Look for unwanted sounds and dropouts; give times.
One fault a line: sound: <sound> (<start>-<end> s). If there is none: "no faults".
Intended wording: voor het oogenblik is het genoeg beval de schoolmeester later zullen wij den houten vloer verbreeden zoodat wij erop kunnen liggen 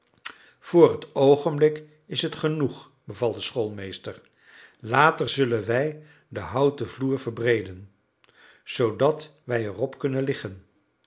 no faults